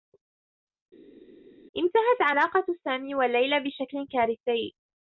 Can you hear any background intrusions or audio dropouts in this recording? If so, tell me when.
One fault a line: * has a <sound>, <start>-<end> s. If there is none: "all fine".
all fine